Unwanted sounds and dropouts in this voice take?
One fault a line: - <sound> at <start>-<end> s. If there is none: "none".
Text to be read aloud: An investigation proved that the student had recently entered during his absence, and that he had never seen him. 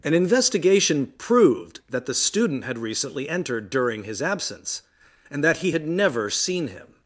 none